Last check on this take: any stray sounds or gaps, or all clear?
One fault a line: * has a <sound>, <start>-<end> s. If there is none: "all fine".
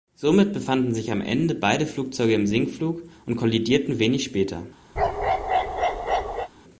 * has a bark, 5.0-6.5 s